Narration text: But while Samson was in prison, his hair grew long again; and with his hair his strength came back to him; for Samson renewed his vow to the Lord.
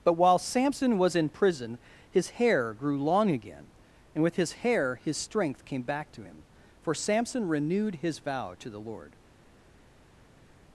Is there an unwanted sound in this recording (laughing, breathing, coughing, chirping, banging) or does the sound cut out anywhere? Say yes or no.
no